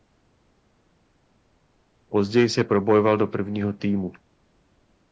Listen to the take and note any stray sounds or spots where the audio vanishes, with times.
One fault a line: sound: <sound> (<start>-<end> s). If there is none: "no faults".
no faults